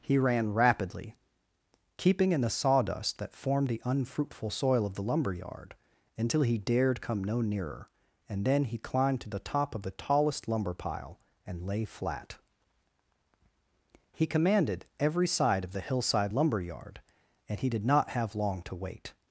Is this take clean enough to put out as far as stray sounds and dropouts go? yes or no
yes